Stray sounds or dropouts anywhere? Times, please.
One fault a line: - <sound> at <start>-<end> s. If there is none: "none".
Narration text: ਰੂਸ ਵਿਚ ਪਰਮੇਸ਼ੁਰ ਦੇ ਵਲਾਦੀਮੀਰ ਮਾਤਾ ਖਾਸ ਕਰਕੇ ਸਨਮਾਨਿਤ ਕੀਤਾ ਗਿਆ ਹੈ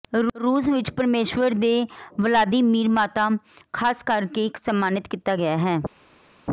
none